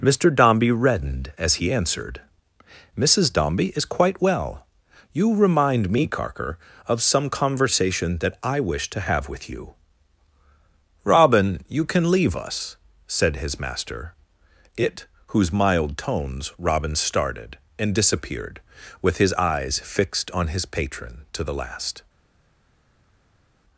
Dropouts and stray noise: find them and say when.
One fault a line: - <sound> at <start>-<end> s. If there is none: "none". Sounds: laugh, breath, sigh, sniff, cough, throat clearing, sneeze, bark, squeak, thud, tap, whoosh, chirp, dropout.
none